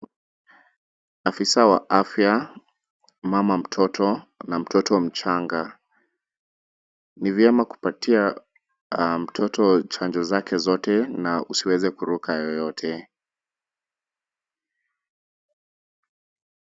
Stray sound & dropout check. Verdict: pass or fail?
pass